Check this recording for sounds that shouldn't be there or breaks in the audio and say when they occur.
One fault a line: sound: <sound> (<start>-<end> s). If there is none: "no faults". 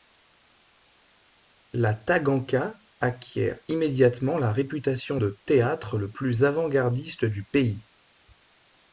no faults